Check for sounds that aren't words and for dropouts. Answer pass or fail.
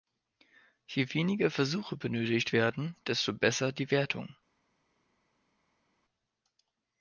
pass